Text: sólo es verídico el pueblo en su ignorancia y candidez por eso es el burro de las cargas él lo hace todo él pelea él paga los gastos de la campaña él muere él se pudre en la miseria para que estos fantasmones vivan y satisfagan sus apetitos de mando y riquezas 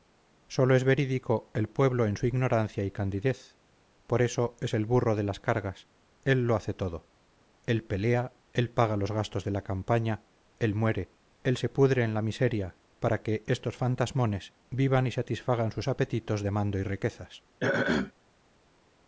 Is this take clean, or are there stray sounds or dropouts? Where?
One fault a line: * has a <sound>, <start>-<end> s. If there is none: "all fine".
* has a throat clearing, 17.6-18.1 s